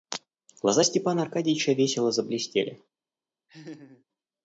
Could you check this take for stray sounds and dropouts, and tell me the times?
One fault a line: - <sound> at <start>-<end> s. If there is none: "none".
- laugh at 3.5-4.0 s